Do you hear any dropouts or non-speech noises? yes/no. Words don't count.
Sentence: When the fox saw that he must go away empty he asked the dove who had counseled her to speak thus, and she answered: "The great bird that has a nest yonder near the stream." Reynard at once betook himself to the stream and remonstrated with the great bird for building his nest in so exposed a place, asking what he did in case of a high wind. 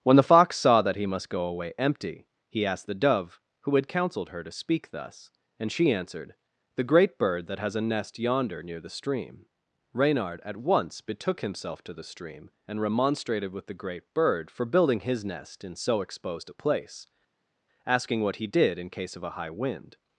no